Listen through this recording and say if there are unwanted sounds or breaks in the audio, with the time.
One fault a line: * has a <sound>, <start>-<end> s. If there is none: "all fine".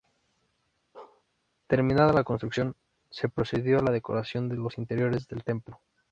* has a bark, 0.9-1.2 s